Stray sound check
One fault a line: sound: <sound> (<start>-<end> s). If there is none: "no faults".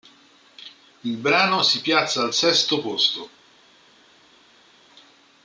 no faults